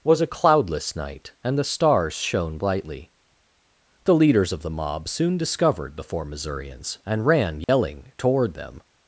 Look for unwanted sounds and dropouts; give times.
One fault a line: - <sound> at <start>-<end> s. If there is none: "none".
- dropout at 7.6-7.7 s